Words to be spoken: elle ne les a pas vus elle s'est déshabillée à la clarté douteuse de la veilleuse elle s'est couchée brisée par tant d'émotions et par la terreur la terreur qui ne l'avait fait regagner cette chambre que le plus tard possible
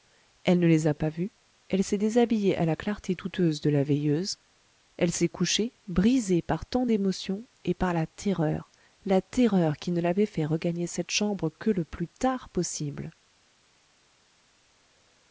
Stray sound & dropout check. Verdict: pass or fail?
pass